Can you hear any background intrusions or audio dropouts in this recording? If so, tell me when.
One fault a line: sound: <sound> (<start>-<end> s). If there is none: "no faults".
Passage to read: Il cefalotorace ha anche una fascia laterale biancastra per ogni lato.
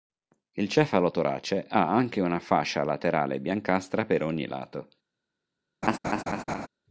sound: laugh (5.8-6.7 s)